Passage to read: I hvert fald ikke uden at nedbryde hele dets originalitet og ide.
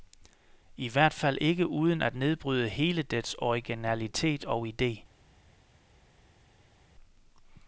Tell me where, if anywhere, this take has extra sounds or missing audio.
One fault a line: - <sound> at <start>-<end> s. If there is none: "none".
none